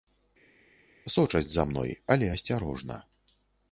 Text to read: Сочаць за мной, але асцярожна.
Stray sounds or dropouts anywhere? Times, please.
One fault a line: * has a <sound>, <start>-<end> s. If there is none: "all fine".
all fine